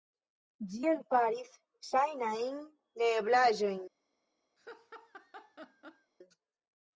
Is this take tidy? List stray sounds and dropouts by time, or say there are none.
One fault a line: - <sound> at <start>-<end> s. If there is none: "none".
- laugh at 4.6-6.1 s